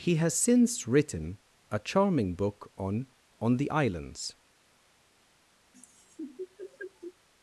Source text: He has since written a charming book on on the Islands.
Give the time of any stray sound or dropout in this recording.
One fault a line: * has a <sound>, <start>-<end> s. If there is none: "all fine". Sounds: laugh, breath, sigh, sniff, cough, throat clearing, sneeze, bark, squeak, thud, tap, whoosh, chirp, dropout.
* has a laugh, 5.7-7.1 s